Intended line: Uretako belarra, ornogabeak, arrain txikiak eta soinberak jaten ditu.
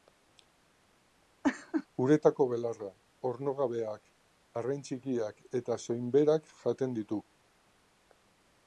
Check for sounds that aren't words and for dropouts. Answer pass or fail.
fail